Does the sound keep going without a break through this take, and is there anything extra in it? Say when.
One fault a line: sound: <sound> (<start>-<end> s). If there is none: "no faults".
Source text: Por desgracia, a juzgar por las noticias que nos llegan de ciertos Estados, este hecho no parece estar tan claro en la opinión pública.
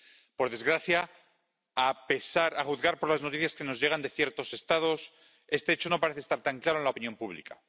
no faults